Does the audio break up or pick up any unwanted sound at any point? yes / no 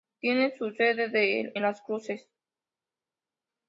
no